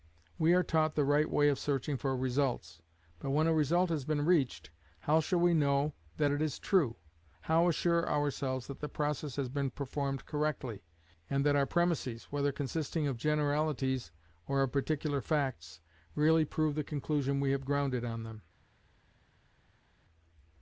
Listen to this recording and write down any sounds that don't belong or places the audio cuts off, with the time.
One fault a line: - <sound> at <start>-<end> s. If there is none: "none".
none